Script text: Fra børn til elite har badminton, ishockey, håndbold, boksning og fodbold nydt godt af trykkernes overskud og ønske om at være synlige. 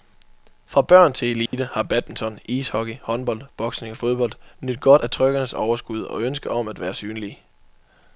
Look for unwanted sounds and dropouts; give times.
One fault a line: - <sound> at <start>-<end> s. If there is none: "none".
- dropout at 1.5-1.5 s